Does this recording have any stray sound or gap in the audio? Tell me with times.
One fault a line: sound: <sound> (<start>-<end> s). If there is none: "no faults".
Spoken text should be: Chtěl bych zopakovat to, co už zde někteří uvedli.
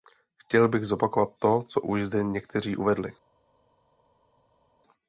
no faults